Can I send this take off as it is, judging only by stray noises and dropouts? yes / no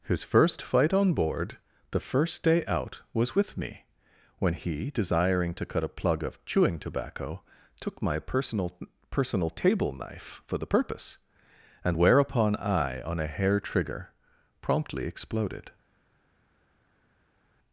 yes